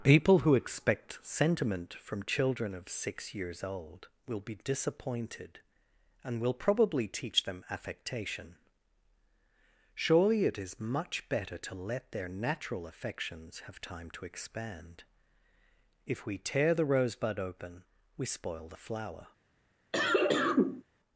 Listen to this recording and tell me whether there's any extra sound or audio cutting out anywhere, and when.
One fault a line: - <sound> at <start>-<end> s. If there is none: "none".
- cough at 19.9-20.8 s